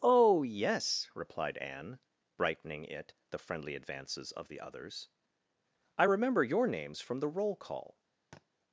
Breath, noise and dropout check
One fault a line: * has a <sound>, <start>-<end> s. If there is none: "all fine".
* has a thud, 8.3-8.5 s